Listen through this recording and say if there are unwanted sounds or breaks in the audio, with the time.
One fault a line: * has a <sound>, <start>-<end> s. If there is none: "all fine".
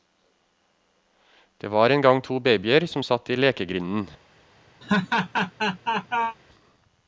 * has a laugh, 4.8-6.4 s